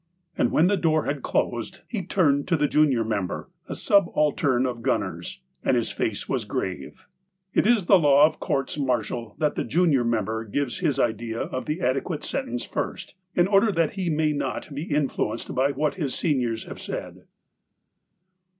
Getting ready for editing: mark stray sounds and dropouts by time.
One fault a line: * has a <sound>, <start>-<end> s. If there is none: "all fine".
all fine